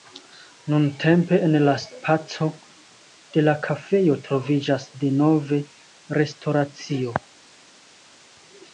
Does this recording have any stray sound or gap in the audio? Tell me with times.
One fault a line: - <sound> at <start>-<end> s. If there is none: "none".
none